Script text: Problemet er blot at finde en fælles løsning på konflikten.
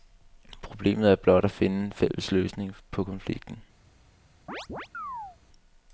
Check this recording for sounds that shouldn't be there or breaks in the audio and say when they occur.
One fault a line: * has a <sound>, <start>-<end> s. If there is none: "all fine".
* has a chirp, 4.5-5.4 s